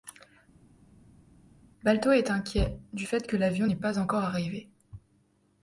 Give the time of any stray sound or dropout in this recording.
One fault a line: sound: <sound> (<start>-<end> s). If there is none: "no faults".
no faults